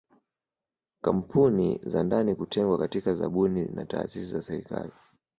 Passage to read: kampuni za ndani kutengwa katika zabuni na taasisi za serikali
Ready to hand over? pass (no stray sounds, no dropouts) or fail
pass